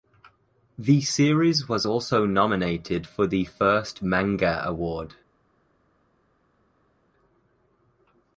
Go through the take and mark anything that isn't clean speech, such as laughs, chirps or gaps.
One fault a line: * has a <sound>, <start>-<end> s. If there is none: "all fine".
all fine